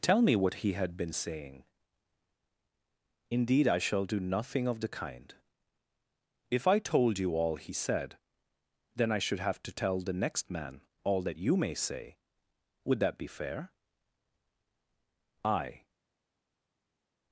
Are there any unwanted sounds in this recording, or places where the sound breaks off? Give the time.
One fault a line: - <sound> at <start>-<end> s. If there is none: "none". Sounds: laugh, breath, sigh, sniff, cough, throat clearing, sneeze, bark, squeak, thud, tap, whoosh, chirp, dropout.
none